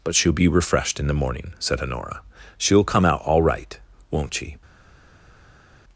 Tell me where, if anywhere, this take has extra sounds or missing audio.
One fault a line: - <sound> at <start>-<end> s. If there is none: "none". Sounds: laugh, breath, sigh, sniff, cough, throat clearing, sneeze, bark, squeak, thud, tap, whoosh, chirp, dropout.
none